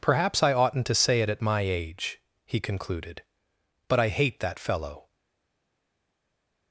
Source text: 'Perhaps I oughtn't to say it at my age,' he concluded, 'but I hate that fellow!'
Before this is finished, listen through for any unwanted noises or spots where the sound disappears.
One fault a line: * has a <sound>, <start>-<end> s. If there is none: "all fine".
all fine